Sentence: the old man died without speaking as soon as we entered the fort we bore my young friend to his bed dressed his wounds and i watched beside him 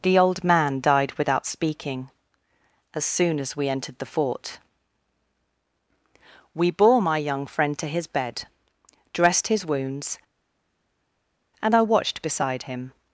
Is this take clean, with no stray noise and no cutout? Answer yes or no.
yes